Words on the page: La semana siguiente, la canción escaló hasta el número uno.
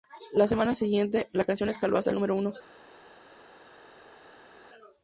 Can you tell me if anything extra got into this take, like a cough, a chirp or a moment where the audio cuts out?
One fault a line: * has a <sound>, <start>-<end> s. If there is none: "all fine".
all fine